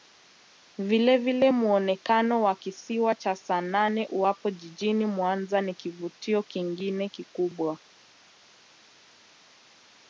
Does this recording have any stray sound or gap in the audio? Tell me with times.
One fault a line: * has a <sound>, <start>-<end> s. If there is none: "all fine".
all fine